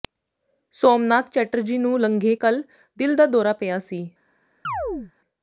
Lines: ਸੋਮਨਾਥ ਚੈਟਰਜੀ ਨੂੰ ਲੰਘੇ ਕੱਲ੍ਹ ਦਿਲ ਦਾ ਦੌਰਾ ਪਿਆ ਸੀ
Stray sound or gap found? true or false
true